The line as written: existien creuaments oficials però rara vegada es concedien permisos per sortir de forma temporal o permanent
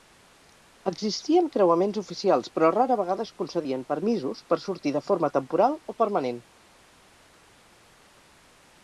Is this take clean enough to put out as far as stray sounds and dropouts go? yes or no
yes